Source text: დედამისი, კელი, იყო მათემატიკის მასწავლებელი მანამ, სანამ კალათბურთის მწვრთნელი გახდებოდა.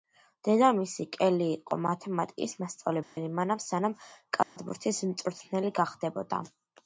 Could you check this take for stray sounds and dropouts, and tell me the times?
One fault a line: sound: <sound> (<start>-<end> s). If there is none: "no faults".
sound: dropout (3.0-3.2 s)
sound: dropout (4.4-4.6 s)